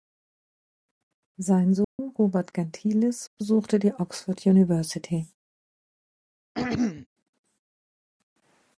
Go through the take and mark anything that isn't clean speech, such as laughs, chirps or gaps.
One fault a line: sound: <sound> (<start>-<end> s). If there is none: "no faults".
sound: dropout (1.8-2.0 s)
sound: throat clearing (6.5-7.1 s)